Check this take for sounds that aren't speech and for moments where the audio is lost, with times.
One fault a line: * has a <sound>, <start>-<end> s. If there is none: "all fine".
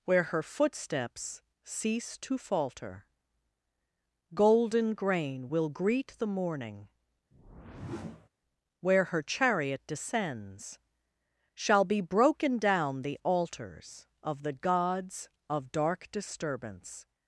* has a whoosh, 7.3-8.3 s